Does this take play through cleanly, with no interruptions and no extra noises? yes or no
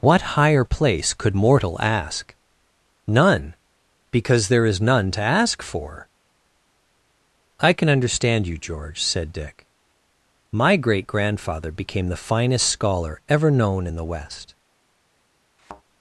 no